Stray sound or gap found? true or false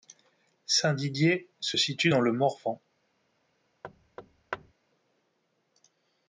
true